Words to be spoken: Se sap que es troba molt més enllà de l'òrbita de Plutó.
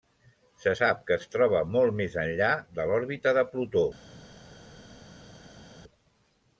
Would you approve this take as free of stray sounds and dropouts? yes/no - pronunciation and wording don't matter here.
yes